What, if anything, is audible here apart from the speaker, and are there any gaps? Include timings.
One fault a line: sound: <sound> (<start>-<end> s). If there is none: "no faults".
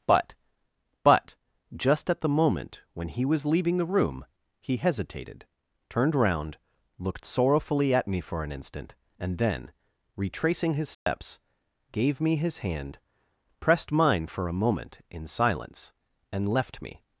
sound: dropout (10.9-11.1 s)